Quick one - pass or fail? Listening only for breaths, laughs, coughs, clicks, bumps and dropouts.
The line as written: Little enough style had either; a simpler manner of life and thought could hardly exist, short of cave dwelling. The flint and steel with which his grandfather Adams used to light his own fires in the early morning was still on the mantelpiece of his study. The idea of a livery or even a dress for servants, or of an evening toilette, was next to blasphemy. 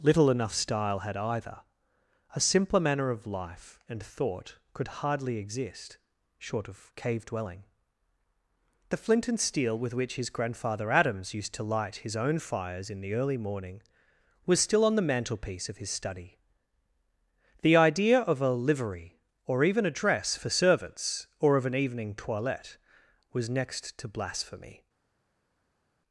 pass